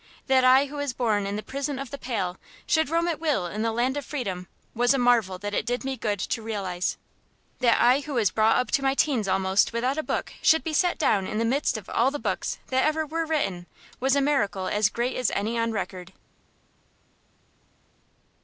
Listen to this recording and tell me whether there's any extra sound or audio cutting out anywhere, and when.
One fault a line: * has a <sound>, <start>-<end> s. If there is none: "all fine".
all fine